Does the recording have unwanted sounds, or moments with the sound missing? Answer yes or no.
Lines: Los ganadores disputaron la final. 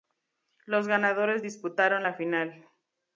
no